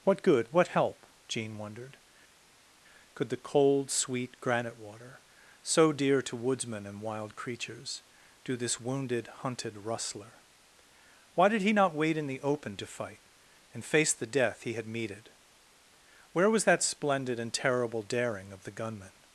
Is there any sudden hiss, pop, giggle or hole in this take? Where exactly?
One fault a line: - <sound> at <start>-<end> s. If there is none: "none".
none